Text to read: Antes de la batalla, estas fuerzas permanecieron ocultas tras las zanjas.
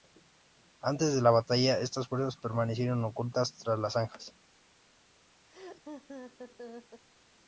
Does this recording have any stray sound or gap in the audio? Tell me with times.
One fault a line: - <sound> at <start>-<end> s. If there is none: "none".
- laugh at 5.5-7.0 s